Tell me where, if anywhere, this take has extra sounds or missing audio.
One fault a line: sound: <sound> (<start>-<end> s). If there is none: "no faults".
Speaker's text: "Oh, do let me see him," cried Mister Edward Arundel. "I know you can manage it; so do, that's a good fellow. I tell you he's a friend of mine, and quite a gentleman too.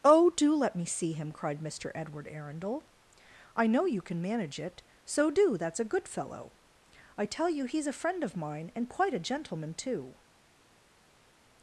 no faults